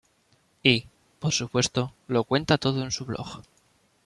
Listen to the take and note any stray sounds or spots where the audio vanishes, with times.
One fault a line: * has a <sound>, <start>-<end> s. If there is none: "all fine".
all fine